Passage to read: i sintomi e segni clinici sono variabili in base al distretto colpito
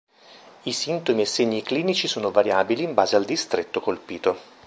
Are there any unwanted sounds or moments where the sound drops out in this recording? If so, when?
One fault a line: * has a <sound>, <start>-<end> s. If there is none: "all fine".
all fine